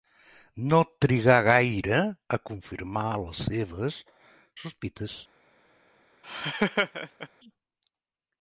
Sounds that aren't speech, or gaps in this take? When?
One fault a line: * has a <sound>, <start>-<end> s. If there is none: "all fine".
* has a laugh, 6.2-7.3 s